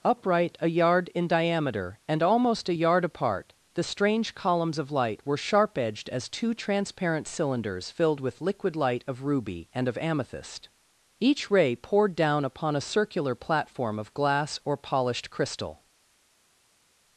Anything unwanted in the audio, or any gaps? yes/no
no